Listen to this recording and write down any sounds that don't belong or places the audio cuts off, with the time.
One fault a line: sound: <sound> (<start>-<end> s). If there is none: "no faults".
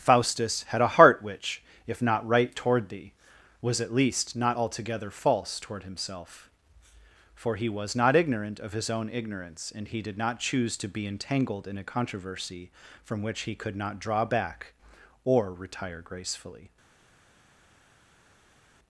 no faults